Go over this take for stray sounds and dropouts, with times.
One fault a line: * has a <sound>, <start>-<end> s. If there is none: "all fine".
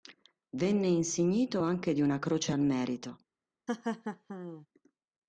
* has a laugh, 3.7-4.7 s